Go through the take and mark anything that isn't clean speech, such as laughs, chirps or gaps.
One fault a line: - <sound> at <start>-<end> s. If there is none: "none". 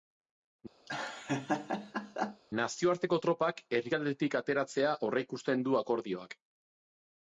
- laugh at 0.9-2.4 s